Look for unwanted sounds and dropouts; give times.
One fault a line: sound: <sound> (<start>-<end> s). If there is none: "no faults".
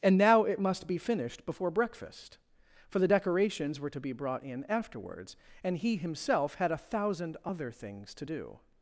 no faults